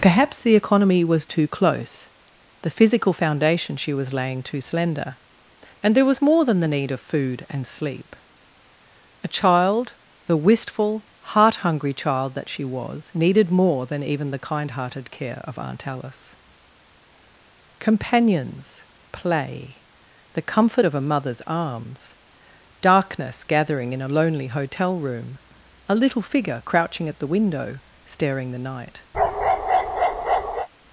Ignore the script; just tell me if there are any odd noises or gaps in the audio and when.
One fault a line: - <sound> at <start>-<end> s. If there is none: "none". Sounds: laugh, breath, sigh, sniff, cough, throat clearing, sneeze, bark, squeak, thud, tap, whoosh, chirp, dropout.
- bark at 29.1-30.7 s